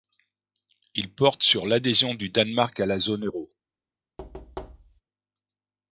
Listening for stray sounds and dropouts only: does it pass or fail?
fail